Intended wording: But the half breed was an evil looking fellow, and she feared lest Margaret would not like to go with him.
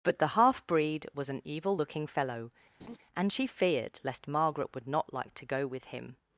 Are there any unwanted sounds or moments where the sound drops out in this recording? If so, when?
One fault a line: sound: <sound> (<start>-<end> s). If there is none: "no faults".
sound: laugh (2.8-3.0 s)